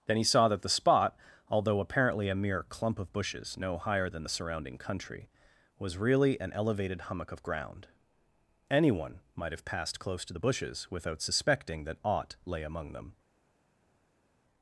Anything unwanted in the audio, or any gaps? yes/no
no